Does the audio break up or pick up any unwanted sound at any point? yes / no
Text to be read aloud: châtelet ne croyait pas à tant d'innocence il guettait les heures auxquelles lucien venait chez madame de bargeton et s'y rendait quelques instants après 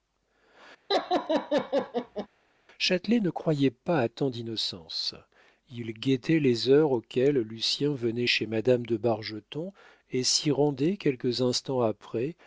yes